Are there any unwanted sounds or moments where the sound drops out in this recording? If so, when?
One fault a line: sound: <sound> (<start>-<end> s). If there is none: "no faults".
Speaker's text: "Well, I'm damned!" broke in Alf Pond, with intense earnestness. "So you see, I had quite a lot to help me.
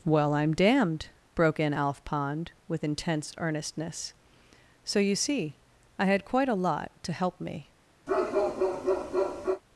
sound: bark (8.1-9.6 s)